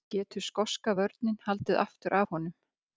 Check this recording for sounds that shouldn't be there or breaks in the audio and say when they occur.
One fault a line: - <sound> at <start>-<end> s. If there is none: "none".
none